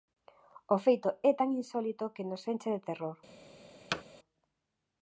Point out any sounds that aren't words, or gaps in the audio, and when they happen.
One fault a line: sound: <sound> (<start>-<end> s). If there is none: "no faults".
sound: thud (3.9-4.0 s)